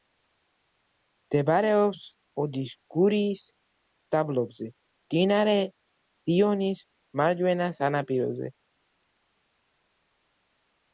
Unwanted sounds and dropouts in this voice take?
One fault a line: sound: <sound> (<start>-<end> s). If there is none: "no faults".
no faults